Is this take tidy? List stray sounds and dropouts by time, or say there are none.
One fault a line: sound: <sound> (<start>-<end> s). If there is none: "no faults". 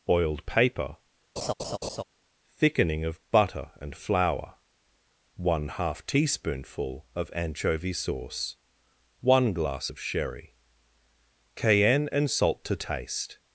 sound: laugh (1.4-2.0 s)